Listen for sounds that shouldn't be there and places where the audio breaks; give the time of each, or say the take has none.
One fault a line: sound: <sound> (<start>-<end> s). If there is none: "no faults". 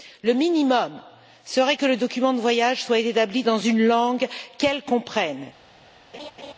sound: laugh (6.1-6.5 s)